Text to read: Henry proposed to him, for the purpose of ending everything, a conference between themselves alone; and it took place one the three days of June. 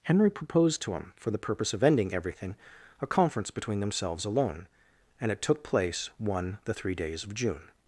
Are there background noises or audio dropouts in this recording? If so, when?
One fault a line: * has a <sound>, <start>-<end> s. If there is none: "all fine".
all fine